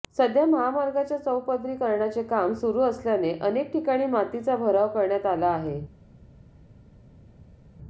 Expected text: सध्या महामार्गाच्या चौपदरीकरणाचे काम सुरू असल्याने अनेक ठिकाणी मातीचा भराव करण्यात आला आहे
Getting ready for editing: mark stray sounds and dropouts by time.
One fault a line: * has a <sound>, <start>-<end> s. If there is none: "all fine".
all fine